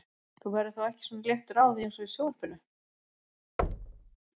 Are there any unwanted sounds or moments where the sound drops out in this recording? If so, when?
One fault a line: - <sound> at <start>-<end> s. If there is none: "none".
- thud at 3.6-4.2 s